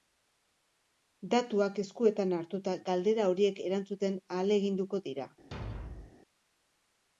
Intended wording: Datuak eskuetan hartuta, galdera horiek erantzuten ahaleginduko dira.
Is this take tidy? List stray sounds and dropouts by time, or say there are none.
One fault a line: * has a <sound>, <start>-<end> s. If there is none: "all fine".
* has a thud, 5.5-6.2 s